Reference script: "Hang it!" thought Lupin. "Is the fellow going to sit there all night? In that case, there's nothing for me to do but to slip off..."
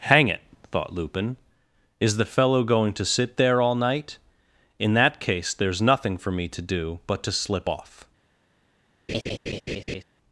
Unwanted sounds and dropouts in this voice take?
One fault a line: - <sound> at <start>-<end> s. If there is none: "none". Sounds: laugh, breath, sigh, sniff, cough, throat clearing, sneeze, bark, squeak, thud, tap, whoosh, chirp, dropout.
- laugh at 9.1-10.0 s